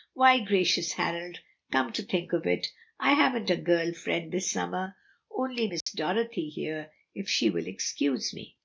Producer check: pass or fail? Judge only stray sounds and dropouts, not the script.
fail